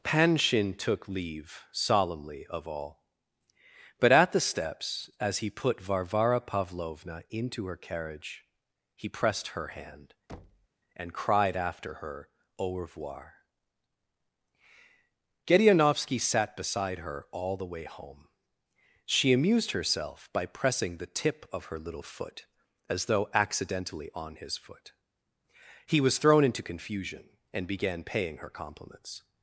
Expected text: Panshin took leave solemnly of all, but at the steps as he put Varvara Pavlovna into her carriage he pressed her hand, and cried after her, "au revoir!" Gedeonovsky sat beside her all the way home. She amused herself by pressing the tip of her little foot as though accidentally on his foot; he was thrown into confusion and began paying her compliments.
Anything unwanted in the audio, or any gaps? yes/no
yes